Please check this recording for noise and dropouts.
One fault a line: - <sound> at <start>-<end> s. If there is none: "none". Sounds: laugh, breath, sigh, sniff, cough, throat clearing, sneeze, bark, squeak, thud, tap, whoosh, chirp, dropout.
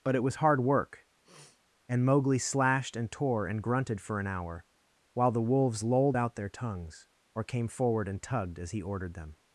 - sniff at 1.2-1.6 s